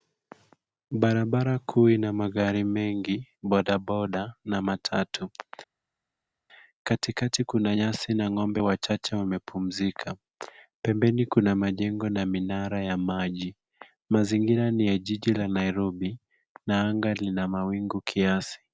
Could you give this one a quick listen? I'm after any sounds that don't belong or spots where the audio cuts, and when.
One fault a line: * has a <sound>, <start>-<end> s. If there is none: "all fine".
all fine